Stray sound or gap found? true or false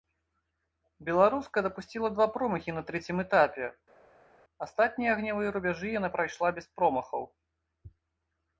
false